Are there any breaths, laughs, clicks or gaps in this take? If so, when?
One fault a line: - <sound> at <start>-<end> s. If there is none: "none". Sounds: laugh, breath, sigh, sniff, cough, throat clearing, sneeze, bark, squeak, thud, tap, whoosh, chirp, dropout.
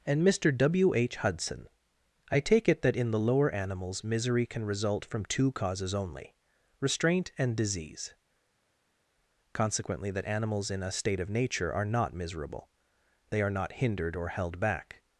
none